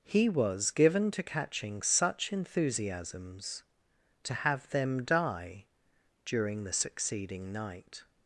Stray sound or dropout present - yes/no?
no